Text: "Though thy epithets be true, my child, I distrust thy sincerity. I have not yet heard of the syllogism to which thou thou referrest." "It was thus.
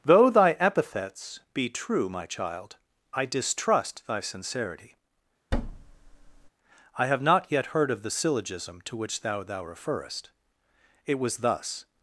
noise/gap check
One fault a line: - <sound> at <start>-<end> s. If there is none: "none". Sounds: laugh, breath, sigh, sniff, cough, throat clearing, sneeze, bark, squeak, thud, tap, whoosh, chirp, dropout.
- thud at 5.5-6.5 s